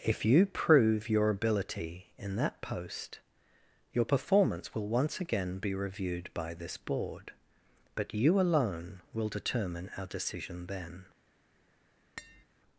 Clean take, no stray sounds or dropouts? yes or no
no